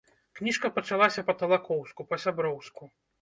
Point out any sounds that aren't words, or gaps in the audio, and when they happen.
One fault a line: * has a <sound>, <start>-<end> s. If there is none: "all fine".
all fine